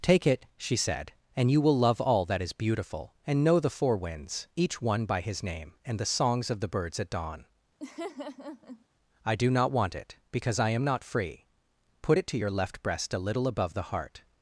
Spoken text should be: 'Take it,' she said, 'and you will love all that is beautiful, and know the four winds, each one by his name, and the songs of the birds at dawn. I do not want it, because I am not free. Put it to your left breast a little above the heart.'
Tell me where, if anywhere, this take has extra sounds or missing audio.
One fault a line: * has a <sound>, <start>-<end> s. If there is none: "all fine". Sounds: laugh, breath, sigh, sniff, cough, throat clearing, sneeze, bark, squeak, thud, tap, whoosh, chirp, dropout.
* has a laugh, 7.8-8.9 s